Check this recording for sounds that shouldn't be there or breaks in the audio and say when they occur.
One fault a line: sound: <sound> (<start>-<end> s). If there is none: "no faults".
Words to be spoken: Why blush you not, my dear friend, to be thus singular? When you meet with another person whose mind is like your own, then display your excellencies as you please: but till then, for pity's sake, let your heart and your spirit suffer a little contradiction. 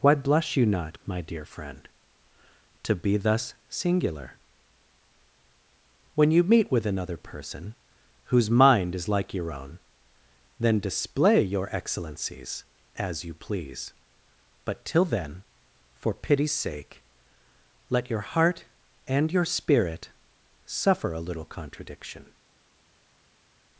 no faults